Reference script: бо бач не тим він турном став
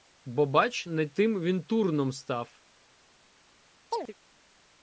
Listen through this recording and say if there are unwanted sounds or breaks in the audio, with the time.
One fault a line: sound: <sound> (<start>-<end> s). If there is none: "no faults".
sound: chirp (3.9-4.1 s)